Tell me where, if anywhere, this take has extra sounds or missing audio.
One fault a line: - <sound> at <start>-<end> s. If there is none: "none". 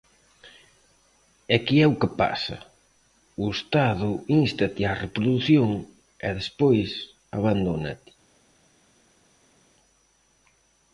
none